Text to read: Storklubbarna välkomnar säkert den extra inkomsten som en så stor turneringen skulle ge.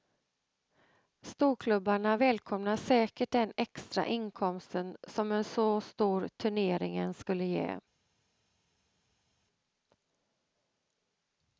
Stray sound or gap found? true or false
false